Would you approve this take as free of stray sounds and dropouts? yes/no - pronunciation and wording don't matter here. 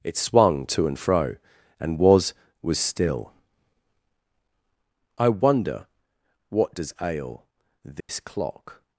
no